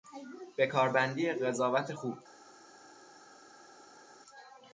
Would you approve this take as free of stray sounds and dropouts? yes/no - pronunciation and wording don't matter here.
yes